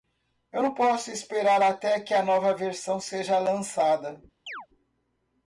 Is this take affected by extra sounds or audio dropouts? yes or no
yes